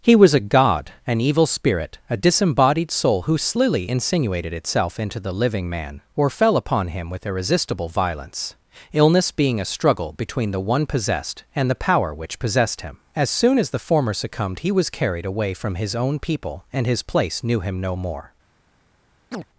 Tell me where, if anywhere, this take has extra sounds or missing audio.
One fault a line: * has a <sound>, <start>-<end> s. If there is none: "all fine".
* has a chirp, 19.3-19.5 s